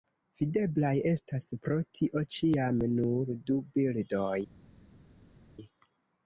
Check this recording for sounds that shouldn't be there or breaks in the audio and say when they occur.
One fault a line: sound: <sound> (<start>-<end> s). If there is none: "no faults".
no faults